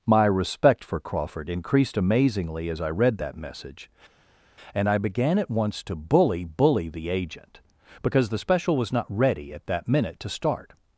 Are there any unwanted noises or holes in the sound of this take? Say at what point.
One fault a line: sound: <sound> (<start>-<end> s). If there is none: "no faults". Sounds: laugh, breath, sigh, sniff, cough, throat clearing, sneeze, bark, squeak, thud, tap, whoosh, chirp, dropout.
no faults